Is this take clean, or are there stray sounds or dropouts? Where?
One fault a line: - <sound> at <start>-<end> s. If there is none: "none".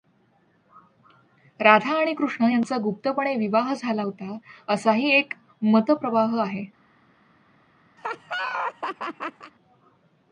- laugh at 8.0-9.5 s